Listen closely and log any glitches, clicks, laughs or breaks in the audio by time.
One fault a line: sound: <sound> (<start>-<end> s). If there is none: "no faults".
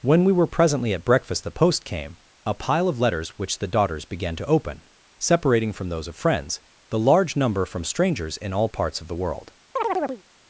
sound: chirp (9.8-10.2 s)